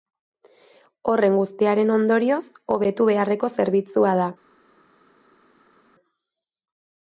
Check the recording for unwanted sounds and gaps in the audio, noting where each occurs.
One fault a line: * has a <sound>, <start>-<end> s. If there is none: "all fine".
all fine